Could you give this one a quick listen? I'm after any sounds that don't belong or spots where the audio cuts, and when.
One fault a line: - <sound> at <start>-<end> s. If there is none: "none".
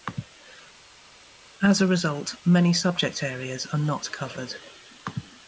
none